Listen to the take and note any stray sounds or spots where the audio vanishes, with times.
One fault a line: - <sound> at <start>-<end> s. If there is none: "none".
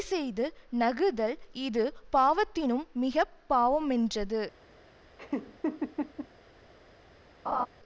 - laugh at 5.2-6.3 s
- laugh at 7.5-7.7 s